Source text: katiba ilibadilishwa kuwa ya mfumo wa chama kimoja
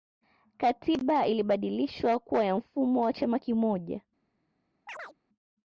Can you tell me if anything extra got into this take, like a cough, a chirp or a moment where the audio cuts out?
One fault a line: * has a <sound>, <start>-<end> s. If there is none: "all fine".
* has a chirp, 4.9-5.2 s